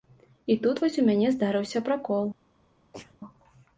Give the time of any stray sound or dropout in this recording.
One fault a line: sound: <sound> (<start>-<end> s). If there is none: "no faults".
sound: sneeze (2.9-3.2 s)